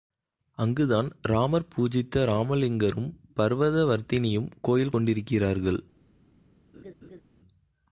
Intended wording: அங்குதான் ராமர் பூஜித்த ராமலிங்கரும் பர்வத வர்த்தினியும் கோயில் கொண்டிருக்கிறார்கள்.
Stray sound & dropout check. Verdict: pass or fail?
fail